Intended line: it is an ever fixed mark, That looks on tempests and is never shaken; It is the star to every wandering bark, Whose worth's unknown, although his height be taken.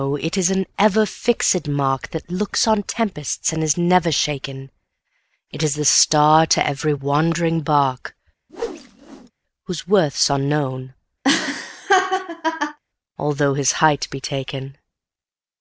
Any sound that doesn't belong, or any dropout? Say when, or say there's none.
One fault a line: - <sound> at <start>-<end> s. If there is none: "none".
- whoosh at 8.5-9.3 s
- laugh at 11.2-12.8 s